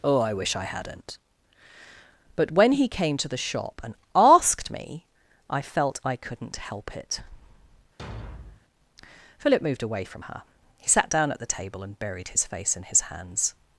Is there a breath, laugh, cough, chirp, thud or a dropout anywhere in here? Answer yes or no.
yes